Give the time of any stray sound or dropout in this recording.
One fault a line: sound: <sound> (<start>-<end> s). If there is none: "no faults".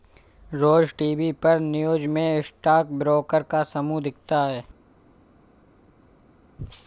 no faults